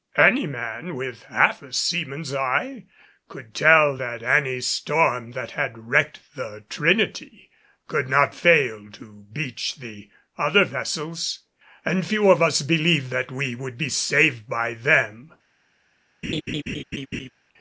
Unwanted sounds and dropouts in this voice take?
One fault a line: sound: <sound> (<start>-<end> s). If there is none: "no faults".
sound: laugh (16.2-17.3 s)